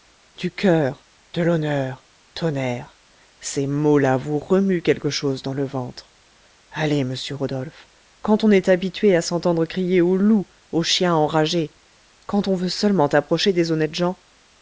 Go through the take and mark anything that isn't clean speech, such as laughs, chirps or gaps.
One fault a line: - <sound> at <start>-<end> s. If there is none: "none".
none